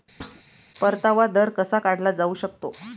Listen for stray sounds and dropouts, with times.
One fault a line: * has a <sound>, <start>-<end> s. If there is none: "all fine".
* has a thud, 0.2-0.4 s